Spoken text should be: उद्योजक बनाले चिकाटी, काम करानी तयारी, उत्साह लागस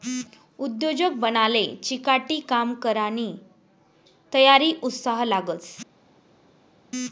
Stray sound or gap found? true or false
false